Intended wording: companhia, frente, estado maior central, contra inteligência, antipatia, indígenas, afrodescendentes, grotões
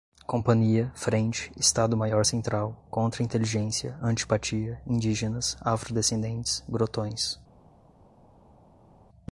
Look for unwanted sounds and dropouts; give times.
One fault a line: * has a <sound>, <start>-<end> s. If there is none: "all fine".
all fine